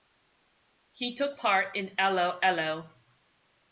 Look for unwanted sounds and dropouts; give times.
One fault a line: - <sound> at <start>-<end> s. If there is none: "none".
none